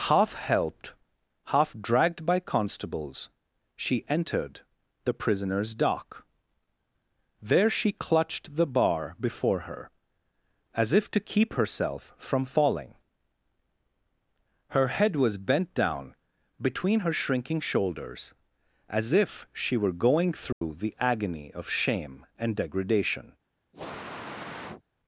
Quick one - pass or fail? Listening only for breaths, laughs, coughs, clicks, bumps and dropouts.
fail